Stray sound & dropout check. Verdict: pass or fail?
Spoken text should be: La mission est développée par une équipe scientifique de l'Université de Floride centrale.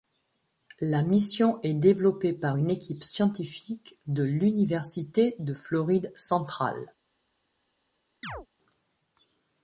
fail